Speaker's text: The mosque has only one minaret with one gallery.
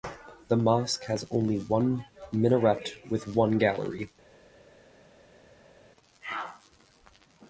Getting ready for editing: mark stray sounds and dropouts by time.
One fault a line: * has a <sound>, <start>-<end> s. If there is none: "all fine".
all fine